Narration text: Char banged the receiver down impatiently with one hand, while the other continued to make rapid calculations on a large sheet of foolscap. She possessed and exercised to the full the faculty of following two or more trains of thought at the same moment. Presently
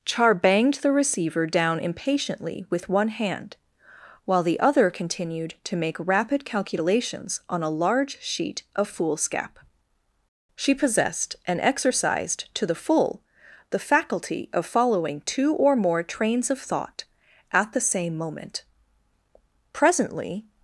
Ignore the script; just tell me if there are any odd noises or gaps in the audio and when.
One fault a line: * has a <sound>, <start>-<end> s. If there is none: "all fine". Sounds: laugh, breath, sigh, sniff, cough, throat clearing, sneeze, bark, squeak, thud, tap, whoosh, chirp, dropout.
all fine